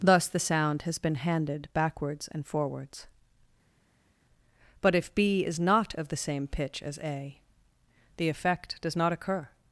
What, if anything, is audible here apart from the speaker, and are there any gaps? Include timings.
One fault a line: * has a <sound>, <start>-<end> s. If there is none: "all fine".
all fine